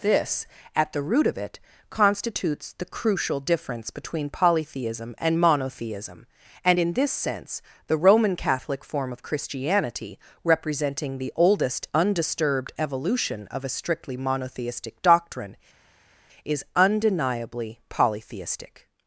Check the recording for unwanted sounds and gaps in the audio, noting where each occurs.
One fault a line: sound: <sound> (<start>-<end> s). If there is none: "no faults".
no faults